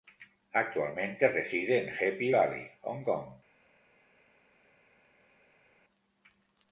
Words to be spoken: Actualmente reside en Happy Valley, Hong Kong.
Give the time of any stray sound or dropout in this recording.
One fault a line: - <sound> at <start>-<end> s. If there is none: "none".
none